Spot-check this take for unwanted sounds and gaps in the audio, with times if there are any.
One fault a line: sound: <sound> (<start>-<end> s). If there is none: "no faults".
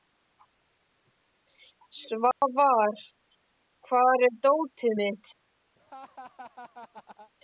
sound: dropout (2.3-2.4 s)
sound: laugh (5.8-7.3 s)